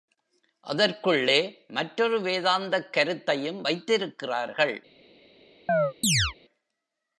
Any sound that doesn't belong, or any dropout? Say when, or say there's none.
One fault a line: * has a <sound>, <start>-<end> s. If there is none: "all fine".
* has a chirp, 5.7-6.3 s